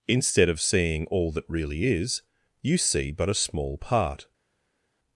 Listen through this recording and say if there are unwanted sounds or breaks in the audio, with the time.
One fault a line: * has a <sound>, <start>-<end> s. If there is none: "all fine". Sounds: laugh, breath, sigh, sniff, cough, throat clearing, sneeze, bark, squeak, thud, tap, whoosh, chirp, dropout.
all fine